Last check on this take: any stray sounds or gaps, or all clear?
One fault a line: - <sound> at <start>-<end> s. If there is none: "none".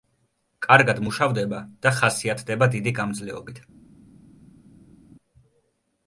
none